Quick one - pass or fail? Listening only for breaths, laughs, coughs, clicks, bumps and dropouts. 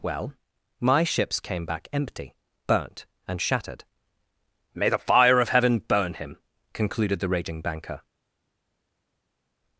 pass